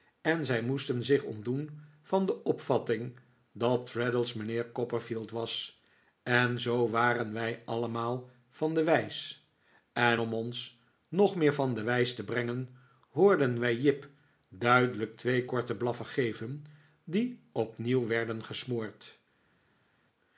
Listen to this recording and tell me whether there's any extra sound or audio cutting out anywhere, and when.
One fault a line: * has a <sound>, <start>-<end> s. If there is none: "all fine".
all fine